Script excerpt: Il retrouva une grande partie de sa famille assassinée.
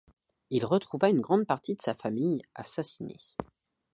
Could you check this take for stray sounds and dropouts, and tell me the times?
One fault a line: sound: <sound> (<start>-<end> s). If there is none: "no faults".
no faults